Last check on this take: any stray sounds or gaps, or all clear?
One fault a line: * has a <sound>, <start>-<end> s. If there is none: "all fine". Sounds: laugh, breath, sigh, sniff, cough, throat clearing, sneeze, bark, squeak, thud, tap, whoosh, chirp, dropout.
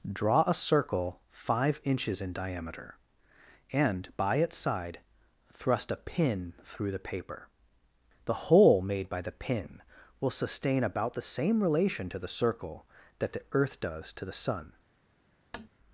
* has a tap, 15.5-15.7 s